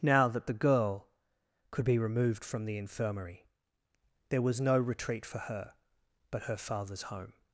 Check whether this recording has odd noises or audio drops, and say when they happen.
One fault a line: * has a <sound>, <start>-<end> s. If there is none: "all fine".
all fine